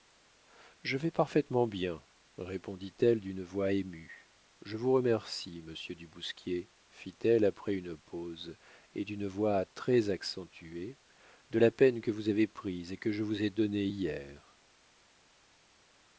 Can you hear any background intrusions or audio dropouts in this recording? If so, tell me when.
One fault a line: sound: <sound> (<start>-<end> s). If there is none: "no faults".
no faults